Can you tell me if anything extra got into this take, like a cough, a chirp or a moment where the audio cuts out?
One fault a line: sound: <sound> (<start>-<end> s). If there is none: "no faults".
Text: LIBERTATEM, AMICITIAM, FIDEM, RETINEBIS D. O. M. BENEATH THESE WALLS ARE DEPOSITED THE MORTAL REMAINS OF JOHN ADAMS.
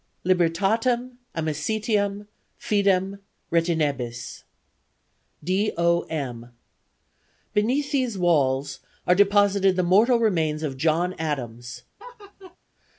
sound: laugh (12.0-12.6 s)